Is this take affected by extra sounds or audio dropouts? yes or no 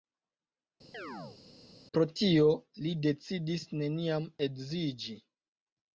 yes